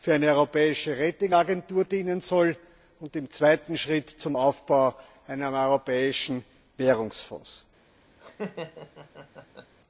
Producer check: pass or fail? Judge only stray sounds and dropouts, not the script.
fail